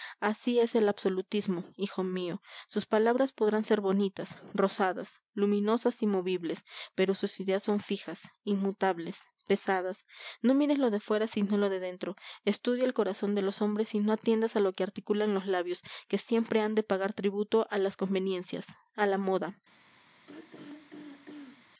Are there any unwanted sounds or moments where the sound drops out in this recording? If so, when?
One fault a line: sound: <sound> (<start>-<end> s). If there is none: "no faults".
sound: throat clearing (20.3-21.7 s)